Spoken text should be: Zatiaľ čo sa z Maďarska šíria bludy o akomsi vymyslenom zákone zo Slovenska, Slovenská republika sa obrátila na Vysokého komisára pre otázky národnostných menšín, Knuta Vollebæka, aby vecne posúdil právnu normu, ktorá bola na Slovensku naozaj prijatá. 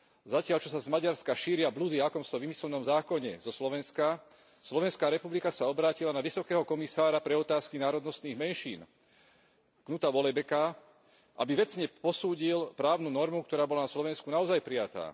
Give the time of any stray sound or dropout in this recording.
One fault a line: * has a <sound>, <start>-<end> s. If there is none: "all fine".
all fine